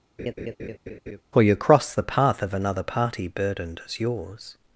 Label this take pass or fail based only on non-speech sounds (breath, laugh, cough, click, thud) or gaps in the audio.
fail